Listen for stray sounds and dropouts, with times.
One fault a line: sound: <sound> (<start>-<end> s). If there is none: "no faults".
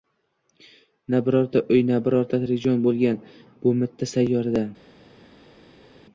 no faults